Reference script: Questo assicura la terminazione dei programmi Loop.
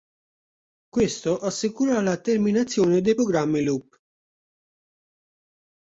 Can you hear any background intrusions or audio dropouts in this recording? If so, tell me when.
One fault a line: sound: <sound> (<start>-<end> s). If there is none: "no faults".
no faults